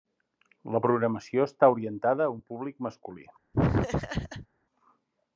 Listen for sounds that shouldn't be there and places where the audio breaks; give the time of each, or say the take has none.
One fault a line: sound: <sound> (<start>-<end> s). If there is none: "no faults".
sound: laugh (3.5-4.5 s)